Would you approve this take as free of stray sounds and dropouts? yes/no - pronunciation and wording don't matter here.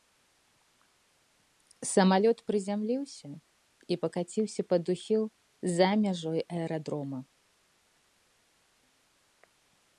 yes